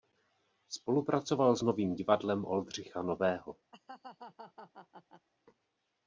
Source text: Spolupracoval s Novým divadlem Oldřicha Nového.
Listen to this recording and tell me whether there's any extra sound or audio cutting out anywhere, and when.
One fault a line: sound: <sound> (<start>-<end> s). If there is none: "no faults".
sound: laugh (3.7-5.3 s)